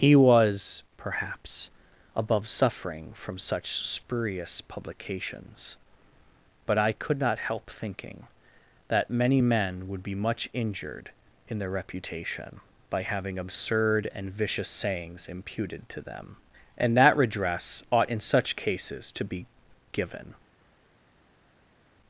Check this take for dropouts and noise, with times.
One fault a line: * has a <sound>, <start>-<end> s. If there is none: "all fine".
all fine